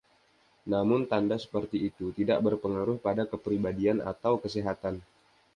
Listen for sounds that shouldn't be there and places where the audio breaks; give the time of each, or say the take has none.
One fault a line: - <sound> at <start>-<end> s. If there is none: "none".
none